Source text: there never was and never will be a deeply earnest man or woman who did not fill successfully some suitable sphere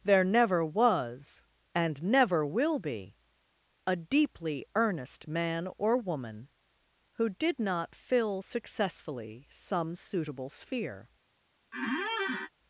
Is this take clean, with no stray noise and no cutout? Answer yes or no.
no